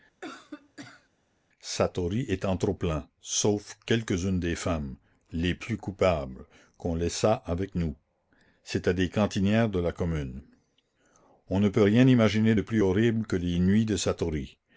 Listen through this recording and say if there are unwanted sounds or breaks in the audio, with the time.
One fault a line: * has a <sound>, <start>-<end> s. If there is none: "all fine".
* has a cough, 0.2-1.1 s